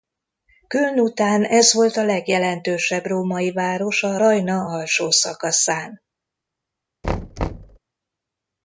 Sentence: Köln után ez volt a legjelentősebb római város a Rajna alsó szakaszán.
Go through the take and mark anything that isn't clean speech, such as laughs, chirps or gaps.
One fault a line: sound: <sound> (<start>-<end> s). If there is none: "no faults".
sound: thud (7.0-7.8 s)